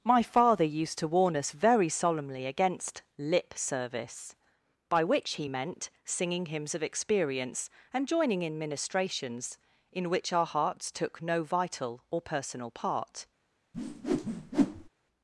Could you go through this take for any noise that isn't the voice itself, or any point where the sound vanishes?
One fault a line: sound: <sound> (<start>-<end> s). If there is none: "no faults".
sound: whoosh (13.7-14.9 s)